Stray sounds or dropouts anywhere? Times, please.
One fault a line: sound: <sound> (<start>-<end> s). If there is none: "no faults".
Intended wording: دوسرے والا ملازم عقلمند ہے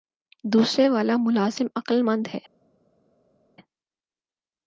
no faults